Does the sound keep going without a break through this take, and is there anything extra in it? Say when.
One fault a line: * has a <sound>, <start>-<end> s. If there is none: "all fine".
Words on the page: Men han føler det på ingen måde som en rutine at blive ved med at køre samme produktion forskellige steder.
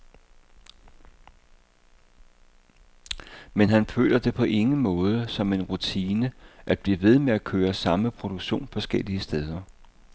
all fine